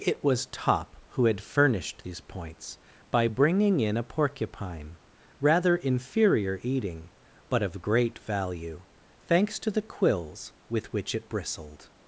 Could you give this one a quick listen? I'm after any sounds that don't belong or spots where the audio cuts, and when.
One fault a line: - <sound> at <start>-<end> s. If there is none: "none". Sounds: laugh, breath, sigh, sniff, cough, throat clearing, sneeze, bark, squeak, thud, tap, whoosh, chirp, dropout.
none